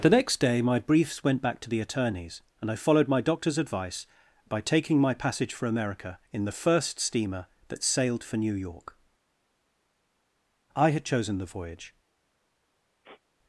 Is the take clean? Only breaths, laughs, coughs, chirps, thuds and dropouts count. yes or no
no